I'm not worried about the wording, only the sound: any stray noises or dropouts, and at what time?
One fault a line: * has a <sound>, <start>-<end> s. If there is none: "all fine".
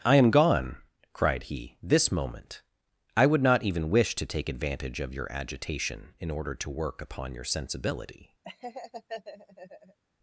* has a laugh, 8.4-10.0 s